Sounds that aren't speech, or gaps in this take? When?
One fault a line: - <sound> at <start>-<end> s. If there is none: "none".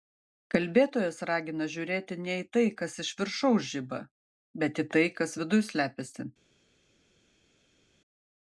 none